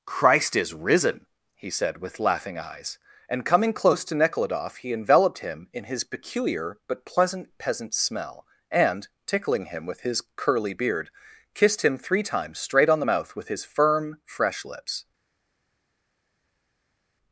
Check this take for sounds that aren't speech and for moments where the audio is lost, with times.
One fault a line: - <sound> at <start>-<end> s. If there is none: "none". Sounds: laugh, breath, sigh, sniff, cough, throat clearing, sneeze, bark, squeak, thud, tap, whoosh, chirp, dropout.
none